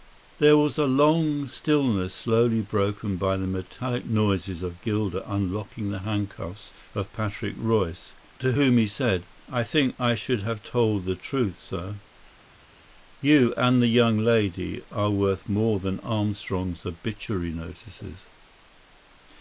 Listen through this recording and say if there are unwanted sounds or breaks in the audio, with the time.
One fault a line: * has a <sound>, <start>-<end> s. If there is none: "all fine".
all fine